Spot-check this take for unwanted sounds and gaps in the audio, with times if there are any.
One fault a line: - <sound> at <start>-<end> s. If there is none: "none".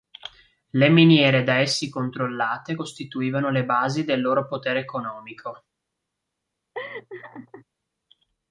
- laugh at 6.7-7.6 s